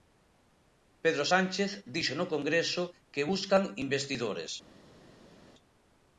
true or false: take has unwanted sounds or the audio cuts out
false